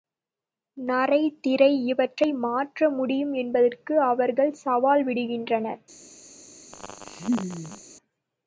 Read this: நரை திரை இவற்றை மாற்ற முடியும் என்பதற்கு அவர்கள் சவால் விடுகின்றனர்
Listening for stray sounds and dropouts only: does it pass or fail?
fail